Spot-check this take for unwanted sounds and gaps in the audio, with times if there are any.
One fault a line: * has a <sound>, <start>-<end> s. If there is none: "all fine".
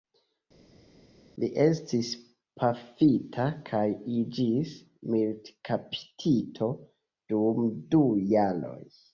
all fine